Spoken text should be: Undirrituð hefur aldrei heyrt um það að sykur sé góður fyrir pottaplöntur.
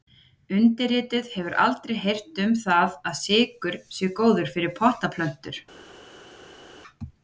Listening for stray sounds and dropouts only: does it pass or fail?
pass